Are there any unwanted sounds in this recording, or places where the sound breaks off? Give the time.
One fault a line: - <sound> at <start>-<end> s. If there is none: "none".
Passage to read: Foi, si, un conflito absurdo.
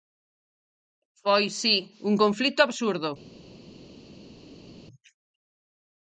none